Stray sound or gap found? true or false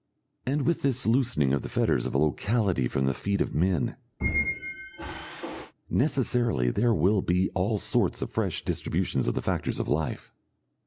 true